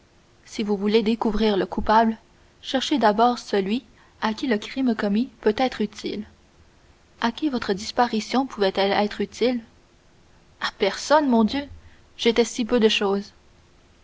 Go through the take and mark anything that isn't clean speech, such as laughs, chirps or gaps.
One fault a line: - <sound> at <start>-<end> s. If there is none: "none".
none